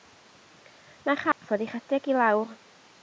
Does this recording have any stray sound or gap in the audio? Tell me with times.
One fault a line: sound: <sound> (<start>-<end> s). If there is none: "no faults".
sound: dropout (1.3-1.4 s)